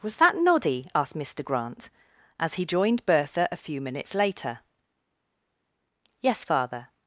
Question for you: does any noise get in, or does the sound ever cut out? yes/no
no